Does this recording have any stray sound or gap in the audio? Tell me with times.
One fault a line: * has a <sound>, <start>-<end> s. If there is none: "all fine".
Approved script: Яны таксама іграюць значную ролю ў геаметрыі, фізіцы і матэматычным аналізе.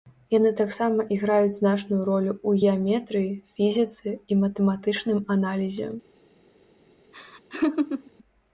* has a laugh, 7.1-8.1 s